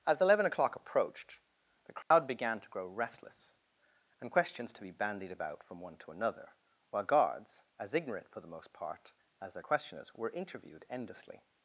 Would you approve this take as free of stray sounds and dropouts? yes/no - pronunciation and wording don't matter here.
no